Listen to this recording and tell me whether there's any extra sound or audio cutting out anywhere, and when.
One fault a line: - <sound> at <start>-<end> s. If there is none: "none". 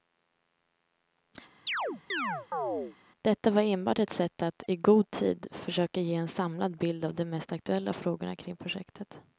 - chirp at 1.7-3.0 s